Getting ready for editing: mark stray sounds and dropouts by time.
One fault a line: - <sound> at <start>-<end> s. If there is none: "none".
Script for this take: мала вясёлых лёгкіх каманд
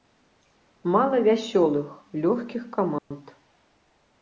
- dropout at 3.0-3.1 s